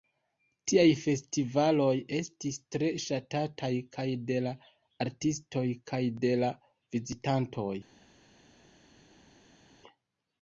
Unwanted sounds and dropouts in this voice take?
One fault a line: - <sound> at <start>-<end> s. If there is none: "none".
none